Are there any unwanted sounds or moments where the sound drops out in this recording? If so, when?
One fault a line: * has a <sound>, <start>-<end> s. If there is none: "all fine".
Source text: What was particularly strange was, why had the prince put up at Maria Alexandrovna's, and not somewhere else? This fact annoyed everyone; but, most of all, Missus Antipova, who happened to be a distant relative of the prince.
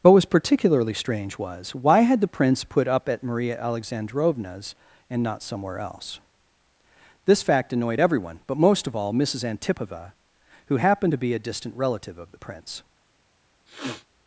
* has a sniff, 13.7-14.1 s